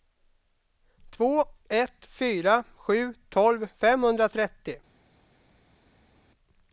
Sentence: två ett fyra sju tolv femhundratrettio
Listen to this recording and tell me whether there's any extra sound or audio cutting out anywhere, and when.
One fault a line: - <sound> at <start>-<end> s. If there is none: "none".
none